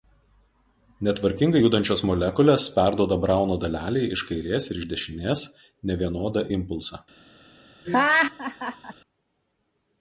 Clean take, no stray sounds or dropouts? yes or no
no